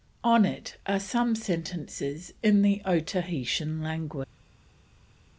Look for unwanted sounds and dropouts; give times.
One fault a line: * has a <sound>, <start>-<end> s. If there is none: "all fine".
all fine